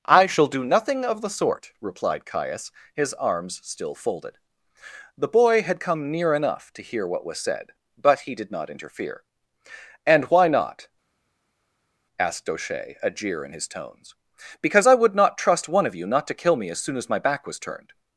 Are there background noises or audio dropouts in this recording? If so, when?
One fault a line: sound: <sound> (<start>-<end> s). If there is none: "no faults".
no faults